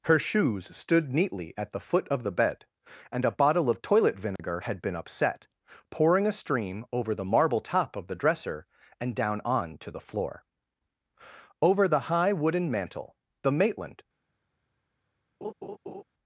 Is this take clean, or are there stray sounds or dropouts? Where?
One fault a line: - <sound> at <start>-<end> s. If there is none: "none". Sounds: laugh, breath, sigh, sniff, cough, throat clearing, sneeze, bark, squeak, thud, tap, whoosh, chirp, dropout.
- dropout at 4.4-4.4 s
- laugh at 15.4-16.0 s